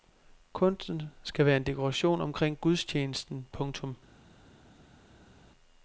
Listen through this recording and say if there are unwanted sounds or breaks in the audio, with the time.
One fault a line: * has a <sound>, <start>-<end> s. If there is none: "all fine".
all fine